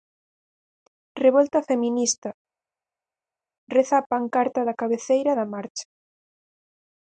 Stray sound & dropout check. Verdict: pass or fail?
pass